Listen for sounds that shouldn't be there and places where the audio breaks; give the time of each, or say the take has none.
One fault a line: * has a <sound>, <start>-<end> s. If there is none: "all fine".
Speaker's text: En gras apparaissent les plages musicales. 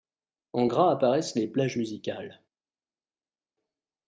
all fine